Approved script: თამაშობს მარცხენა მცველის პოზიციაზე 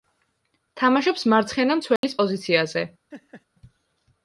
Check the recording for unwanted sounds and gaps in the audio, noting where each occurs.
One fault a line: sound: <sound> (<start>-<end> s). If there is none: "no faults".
sound: dropout (2.0-2.0 s)
sound: laugh (3.1-3.5 s)